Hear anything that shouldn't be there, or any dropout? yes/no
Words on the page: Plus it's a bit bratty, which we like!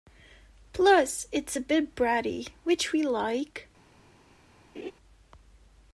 yes